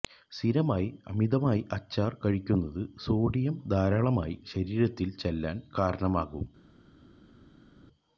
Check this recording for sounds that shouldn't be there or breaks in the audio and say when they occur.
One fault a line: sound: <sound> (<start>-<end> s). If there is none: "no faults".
no faults